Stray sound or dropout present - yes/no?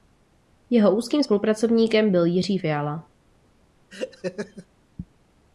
yes